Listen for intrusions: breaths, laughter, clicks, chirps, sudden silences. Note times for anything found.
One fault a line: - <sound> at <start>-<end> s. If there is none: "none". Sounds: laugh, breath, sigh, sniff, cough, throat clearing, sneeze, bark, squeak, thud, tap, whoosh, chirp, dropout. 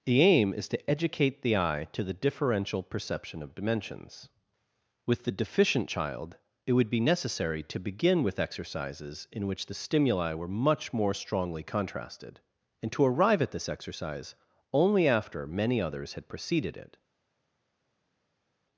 none